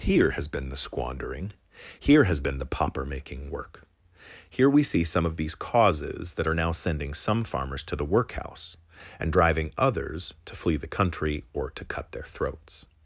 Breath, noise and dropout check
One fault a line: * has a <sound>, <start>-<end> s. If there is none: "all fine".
all fine